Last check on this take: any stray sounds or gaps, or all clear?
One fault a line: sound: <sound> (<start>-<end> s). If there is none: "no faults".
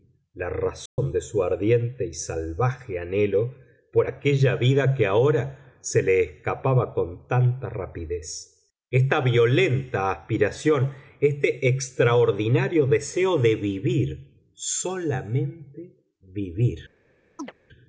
sound: dropout (0.9-1.0 s)
sound: chirp (17.4-17.5 s)